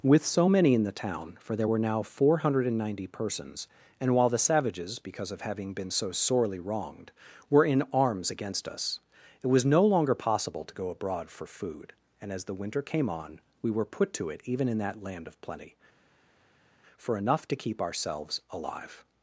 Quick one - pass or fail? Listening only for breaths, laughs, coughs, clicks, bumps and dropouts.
pass